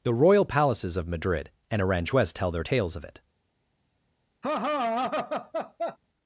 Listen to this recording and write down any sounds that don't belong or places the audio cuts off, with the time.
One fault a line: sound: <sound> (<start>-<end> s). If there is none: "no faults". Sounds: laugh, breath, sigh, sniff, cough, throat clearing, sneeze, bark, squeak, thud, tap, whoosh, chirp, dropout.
sound: laugh (4.4-6.0 s)